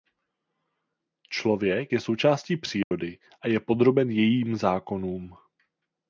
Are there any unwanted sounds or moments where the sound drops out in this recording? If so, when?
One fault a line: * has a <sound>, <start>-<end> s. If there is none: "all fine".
* has a dropout, 2.8-2.9 s